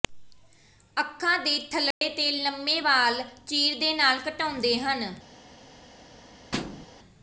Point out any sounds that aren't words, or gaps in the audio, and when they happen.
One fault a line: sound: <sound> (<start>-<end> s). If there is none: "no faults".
sound: dropout (1.9-2.0 s)
sound: thud (6.5-6.9 s)